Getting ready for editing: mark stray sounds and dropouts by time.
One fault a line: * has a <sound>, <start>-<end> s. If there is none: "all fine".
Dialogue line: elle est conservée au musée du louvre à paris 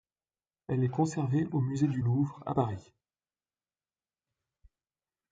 all fine